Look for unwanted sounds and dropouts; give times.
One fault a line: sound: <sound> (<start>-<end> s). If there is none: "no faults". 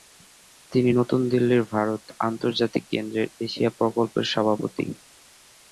no faults